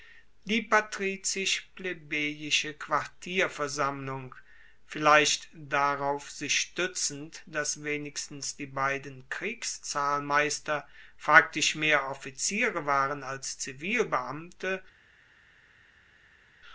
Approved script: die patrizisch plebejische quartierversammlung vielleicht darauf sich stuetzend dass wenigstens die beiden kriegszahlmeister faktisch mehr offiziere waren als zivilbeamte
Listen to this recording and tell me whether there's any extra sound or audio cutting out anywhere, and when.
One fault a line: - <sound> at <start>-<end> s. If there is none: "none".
none